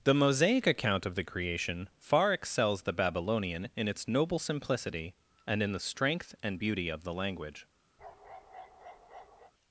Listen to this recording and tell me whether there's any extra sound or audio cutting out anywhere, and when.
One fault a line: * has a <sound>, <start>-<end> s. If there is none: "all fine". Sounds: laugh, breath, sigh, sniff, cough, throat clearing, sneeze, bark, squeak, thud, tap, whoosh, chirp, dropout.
* has a bark, 8.0-9.5 s